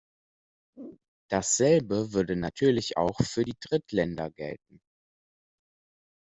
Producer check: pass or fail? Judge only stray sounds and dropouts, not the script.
pass